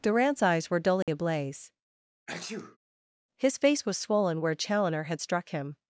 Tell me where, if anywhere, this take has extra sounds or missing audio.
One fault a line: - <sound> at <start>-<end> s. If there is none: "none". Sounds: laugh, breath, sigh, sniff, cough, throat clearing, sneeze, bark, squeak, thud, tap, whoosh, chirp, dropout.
- dropout at 1.0-1.1 s
- sneeze at 2.3-2.8 s